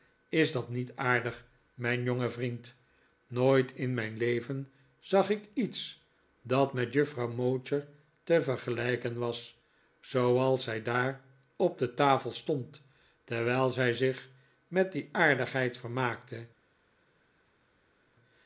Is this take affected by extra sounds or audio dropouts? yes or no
no